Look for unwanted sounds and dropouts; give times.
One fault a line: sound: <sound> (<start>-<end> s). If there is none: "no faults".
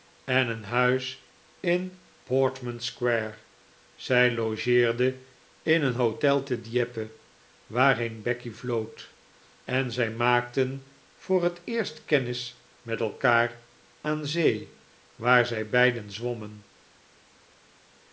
no faults